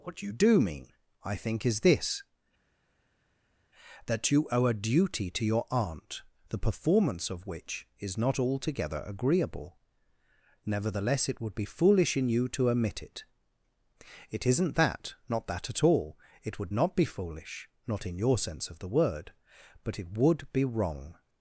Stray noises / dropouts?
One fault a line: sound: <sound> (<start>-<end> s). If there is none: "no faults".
no faults